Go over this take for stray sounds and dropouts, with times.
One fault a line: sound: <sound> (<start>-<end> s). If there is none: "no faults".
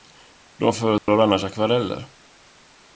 sound: dropout (1.0-1.1 s)